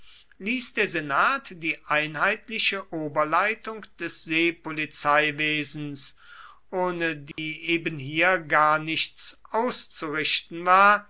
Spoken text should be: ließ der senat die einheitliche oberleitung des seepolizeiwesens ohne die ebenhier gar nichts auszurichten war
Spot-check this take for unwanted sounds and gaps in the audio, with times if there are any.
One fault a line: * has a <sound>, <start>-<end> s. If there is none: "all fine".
* has a dropout, 7.3-7.4 s